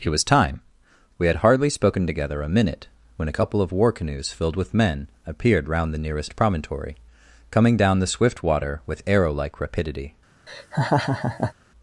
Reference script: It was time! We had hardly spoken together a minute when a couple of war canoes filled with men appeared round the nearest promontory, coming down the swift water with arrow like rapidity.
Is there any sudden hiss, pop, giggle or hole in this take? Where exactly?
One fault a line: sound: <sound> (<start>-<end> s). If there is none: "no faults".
sound: laugh (10.5-11.5 s)